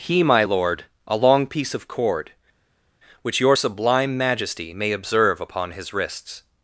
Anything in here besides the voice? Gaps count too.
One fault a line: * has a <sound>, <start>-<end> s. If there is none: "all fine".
all fine